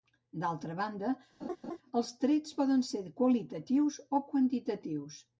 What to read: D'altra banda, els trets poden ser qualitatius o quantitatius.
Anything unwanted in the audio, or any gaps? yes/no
yes